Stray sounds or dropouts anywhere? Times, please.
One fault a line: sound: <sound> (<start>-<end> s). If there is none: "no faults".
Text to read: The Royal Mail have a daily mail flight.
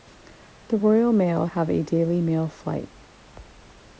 no faults